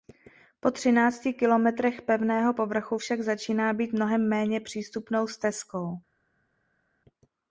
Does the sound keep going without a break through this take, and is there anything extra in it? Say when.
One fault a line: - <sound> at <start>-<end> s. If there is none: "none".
none